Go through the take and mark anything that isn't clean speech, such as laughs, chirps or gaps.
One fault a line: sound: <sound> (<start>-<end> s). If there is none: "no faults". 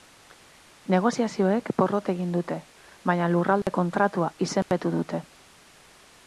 sound: dropout (3.6-3.7 s)
sound: dropout (4.6-4.7 s)